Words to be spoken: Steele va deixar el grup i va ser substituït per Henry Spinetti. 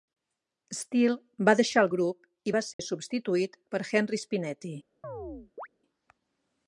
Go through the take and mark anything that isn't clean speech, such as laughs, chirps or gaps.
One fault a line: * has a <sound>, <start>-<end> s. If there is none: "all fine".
* has a dropout, 2.7-2.8 s
* has a chirp, 5.0-5.7 s